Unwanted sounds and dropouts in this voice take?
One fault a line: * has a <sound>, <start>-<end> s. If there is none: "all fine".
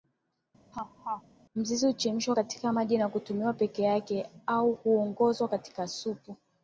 * has a laugh, 0.7-1.2 s